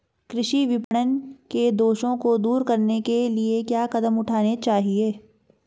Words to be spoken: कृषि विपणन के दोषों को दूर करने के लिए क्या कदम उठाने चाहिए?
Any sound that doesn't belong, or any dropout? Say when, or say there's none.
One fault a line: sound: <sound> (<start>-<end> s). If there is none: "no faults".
sound: dropout (0.8-0.9 s)